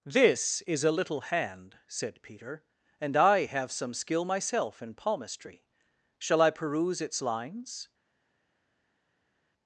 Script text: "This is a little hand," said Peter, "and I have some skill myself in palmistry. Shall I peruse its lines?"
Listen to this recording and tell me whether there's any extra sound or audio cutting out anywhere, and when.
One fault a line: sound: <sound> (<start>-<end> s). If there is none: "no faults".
no faults